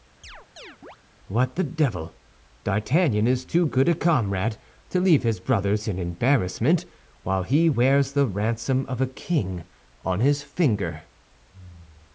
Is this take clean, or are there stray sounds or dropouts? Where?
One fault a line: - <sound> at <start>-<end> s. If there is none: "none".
- chirp at 0.2-1.0 s